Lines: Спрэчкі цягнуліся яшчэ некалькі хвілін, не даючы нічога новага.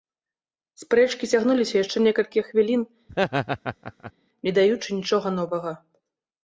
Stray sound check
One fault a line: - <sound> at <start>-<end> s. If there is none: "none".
- laugh at 3.1-4.1 s